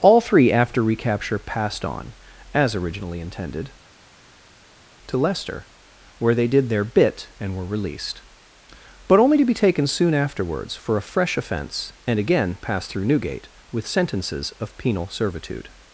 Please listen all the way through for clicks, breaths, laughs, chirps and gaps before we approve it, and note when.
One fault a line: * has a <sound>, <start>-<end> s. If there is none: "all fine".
all fine